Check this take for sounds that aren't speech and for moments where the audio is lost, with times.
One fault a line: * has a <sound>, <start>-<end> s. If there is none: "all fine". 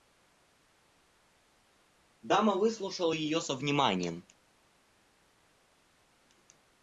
all fine